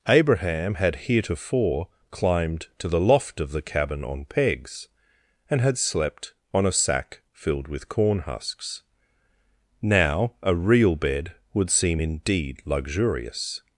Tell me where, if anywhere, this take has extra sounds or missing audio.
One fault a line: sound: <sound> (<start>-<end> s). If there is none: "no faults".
no faults